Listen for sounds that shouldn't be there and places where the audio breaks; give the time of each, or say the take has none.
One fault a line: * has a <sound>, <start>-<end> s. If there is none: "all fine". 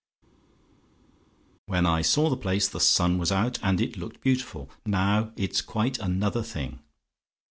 all fine